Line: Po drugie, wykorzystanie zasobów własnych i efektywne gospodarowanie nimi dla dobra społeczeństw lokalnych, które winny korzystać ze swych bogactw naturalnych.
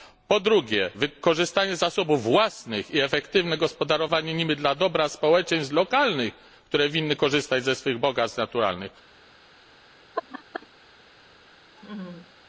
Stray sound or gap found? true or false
true